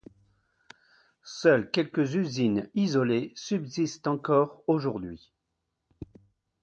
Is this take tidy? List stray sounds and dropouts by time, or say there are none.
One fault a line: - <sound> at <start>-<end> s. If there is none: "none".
none